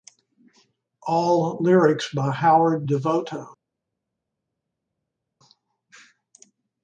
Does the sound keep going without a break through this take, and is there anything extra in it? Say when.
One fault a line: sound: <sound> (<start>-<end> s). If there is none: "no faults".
no faults